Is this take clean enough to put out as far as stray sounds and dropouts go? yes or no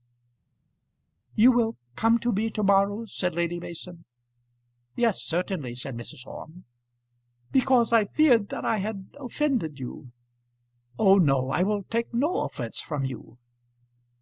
yes